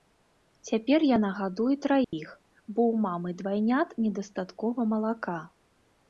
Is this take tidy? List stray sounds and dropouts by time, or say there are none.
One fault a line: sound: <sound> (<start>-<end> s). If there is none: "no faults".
sound: dropout (2.0-2.1 s)